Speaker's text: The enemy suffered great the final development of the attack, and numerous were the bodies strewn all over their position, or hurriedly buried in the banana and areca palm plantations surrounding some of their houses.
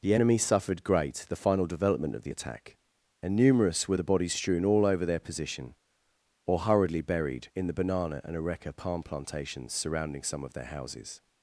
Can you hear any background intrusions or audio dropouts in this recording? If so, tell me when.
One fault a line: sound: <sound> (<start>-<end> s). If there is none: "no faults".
no faults